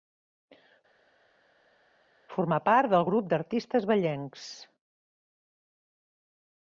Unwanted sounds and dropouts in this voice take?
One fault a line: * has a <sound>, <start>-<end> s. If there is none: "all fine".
all fine